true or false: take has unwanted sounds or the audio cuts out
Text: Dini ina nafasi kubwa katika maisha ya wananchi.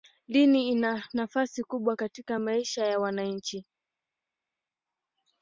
false